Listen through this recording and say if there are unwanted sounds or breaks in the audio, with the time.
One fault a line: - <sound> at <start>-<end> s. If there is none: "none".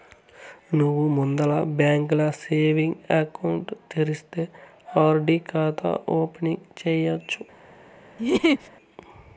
- laugh at 8.2-8.7 s